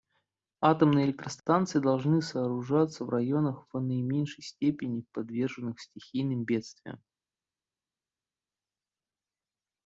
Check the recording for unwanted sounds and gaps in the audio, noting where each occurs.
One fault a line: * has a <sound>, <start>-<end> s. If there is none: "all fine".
all fine